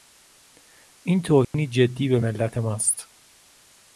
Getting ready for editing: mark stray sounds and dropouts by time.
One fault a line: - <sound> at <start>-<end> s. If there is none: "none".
- dropout at 1.4-1.5 s